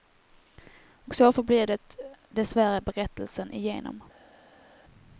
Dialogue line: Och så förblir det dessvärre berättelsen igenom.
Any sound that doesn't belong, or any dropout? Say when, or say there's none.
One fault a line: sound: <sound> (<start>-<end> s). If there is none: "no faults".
no faults